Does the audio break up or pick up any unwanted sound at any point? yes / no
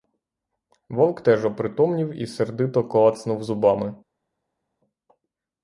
no